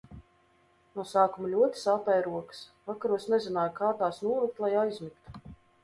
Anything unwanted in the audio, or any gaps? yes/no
no